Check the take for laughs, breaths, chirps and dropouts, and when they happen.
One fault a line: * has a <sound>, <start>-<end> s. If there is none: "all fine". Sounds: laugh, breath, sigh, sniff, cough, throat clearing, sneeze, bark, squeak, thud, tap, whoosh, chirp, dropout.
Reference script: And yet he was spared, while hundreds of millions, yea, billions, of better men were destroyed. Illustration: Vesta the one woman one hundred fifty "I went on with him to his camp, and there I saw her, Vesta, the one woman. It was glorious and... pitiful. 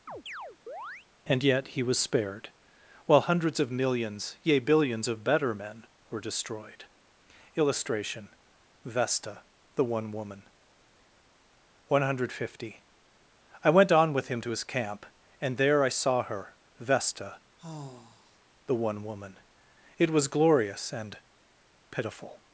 * has a chirp, 0.1-1.1 s
* has a sigh, 17.6-18.4 s